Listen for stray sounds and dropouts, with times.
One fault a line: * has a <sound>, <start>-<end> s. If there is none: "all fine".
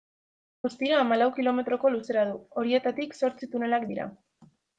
all fine